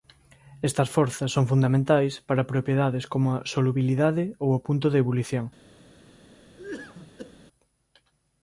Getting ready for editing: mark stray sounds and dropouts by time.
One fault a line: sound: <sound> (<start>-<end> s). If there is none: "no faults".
sound: cough (6.6-7.4 s)